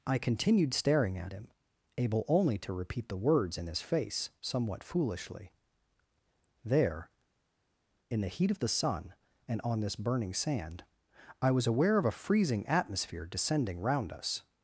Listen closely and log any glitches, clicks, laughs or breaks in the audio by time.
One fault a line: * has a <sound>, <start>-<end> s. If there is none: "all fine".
all fine